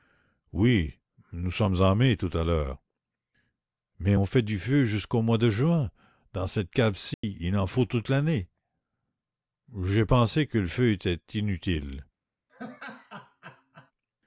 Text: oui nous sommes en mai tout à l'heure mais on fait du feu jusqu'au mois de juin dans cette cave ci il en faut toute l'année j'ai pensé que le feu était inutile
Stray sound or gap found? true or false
true